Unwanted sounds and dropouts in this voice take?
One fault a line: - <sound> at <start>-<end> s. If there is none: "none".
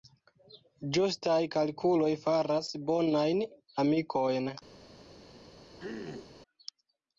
- throat clearing at 5.8-6.3 s